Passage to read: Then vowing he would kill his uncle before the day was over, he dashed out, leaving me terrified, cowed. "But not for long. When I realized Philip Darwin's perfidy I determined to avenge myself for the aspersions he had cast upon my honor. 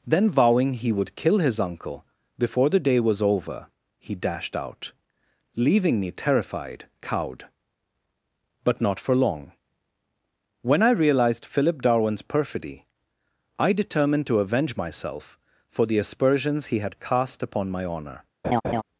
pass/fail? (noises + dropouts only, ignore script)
fail